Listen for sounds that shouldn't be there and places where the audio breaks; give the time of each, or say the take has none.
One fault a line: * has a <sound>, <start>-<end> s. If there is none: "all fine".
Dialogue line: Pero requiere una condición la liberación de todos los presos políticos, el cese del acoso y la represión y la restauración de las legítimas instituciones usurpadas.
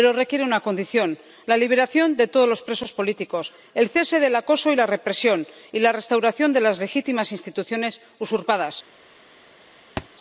* has a thud, 10.0-10.1 s